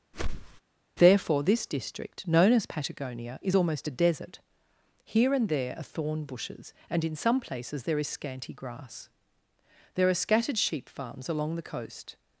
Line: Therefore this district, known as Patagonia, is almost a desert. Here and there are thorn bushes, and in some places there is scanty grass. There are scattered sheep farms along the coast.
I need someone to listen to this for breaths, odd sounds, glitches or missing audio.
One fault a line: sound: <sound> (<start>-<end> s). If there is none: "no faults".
sound: whoosh (0.1-0.6 s)